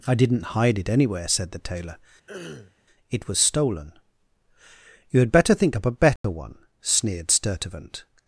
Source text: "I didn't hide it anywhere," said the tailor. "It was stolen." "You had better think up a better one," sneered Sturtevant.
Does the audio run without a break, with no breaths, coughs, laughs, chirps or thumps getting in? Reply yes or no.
no